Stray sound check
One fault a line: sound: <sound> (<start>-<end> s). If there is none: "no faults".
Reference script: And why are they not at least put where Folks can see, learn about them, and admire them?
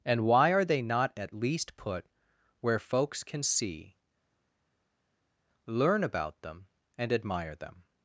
no faults